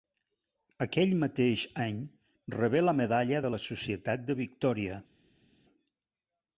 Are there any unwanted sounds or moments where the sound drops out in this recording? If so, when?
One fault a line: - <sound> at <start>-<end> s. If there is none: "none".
none